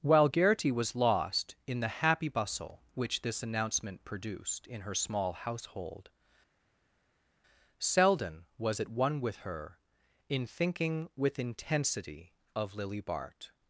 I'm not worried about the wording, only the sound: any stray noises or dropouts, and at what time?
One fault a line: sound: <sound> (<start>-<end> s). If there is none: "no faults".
no faults